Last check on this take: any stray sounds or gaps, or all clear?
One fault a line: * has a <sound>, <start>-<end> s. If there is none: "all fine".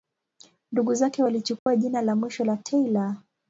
* has a dropout, 1.6-1.7 s